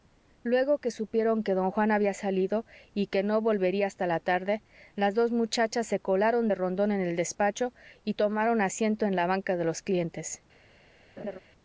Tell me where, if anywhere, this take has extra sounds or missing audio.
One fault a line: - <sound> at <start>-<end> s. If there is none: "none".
- laugh at 11.2-11.4 s